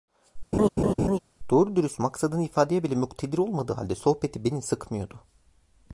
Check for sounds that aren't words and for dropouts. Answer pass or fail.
fail